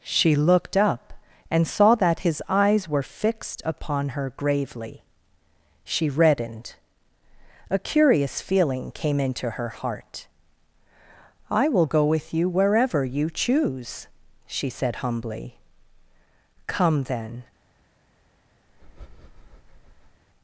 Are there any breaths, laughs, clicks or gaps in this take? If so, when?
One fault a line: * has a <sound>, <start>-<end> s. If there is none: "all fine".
* has a breath, 18.7-20.2 s